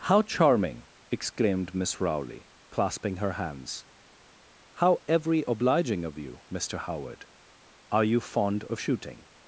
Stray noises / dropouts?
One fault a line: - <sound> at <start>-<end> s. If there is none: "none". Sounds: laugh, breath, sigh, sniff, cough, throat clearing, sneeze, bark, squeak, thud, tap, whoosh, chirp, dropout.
none